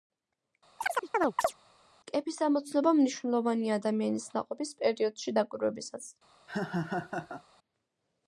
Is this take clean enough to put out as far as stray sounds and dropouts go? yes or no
no